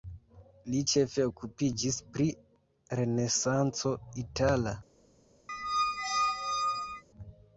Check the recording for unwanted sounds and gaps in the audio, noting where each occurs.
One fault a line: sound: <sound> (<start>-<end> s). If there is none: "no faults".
sound: squeak (5.5-7.0 s)